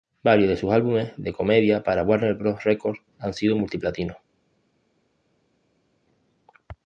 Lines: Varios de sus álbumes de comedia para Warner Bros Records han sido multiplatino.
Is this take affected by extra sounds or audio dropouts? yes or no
no